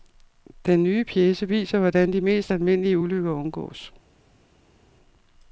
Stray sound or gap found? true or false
false